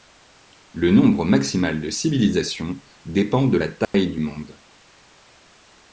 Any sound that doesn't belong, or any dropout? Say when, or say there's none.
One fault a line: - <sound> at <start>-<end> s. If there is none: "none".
- dropout at 3.8-3.9 s